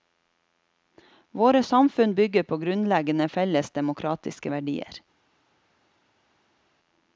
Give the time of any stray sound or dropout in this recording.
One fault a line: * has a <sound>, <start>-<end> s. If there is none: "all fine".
all fine